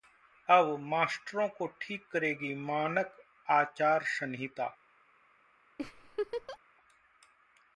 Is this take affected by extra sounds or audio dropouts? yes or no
yes